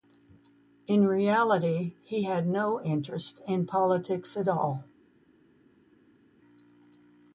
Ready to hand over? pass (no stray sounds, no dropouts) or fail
pass